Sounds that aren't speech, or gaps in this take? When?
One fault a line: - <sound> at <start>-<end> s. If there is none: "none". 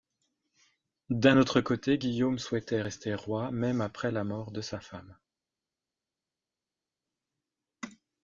none